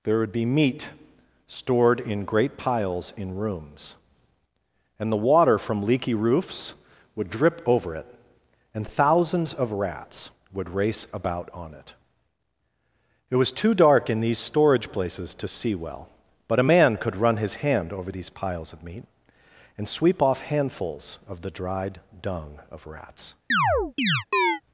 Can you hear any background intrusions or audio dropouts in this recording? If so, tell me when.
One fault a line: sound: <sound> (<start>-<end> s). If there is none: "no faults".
sound: chirp (23.5-24.6 s)